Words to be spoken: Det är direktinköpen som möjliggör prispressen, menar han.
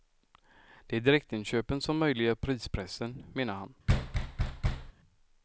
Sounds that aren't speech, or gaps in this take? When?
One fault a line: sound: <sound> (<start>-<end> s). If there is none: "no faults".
sound: thud (3.9-4.9 s)